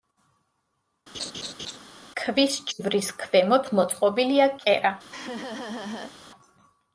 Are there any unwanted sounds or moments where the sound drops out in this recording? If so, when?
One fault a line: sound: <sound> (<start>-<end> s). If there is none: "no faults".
sound: laugh (1.1-1.8 s)
sound: laugh (5.1-6.1 s)